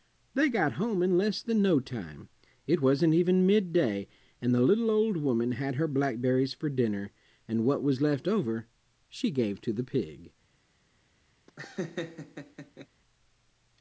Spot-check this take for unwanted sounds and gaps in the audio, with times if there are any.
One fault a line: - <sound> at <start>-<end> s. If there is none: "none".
- laugh at 11.5-12.9 s